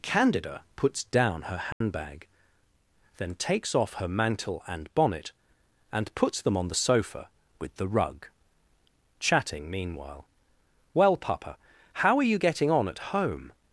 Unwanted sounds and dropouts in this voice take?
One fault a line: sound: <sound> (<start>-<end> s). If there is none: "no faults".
sound: dropout (1.7-1.8 s)